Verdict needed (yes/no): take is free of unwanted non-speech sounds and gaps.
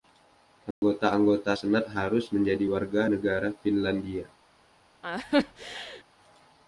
no